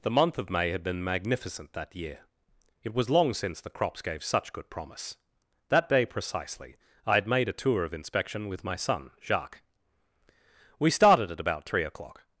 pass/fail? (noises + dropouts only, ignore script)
pass